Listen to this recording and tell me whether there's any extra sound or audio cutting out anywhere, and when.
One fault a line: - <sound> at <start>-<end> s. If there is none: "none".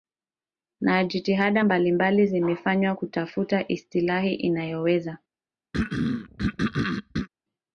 - throat clearing at 5.7-7.3 s